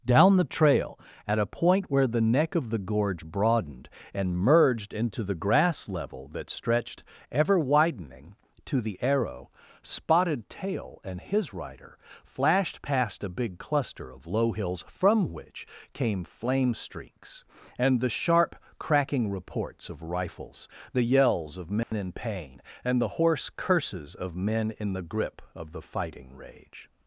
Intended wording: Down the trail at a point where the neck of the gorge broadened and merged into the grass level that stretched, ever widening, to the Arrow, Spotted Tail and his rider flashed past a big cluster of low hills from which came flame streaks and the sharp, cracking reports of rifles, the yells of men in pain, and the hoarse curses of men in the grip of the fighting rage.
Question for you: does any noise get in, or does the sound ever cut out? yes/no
yes